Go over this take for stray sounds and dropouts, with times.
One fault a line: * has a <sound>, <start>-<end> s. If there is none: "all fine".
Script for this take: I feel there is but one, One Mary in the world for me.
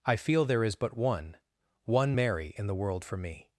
all fine